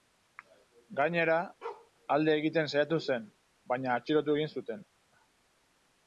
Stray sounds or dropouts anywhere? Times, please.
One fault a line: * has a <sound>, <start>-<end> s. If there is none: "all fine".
* has a bark, 1.6-1.9 s